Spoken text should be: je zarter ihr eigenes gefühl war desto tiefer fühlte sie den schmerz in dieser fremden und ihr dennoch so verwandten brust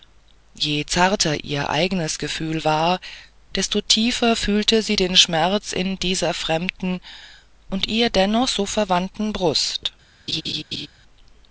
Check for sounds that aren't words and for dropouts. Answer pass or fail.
fail